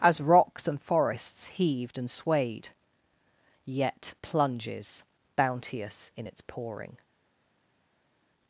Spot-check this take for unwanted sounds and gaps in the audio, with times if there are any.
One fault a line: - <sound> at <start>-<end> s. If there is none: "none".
none